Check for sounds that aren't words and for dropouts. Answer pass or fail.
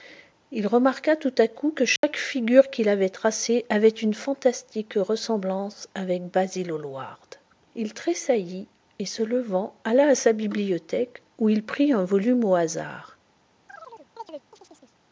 fail